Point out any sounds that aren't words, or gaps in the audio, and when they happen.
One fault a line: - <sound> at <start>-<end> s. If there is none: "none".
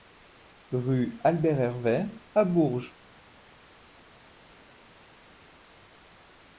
none